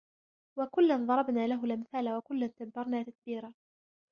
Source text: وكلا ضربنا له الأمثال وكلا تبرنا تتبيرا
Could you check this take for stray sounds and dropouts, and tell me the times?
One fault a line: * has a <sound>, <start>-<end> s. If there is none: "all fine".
all fine